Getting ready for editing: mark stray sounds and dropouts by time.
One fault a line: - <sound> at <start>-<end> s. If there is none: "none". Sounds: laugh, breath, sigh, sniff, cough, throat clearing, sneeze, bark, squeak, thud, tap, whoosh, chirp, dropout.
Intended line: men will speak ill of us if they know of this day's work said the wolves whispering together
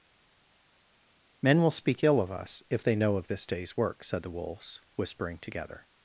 none